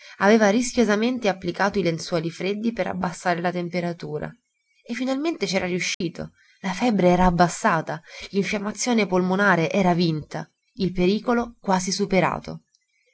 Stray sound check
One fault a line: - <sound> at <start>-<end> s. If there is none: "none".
- dropout at 5.9-6.0 s